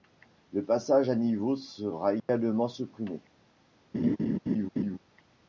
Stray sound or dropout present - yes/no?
yes